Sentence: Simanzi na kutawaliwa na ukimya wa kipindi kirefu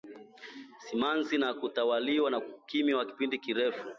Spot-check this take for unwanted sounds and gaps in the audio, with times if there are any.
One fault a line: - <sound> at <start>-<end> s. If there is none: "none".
none